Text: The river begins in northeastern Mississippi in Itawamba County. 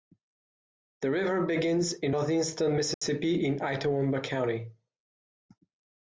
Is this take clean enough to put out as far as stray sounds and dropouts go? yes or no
no